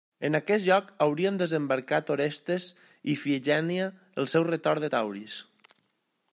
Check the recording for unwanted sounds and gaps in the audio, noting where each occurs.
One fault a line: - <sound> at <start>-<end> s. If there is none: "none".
none